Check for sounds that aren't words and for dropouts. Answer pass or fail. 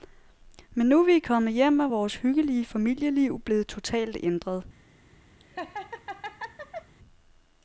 fail